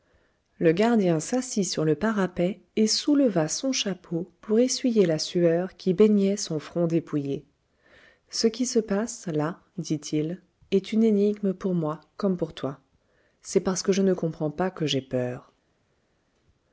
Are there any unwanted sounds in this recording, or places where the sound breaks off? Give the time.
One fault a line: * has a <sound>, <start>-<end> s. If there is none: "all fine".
all fine